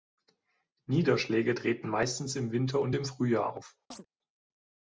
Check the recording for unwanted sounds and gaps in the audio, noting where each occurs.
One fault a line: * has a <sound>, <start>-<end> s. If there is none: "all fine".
* has a chirp, 3.9-4.1 s